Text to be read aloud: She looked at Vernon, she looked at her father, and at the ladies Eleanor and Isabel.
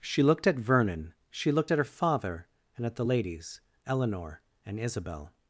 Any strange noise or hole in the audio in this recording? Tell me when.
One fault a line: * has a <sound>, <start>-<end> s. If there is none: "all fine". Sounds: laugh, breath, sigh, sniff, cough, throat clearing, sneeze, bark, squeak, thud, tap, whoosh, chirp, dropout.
all fine